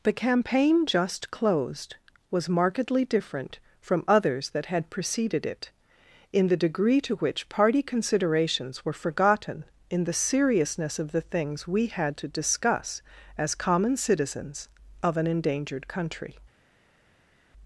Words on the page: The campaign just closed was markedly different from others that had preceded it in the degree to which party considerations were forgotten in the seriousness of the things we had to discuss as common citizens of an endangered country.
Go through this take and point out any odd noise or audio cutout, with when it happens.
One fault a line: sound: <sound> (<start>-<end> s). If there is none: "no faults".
no faults